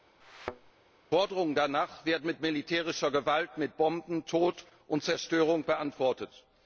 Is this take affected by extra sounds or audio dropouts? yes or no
yes